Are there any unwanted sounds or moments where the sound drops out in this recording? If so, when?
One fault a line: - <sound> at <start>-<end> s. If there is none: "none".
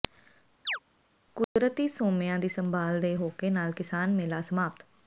- chirp at 0.7-0.8 s
- dropout at 1.4-1.6 s